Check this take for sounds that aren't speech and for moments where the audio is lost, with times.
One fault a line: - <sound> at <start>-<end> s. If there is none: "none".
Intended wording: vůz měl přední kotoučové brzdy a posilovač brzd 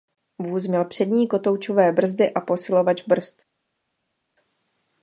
none